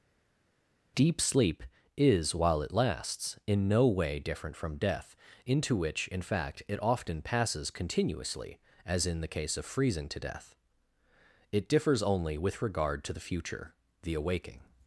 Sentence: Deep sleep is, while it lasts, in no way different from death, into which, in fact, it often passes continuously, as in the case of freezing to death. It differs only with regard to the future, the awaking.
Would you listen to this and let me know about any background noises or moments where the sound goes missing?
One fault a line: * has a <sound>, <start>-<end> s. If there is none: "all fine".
all fine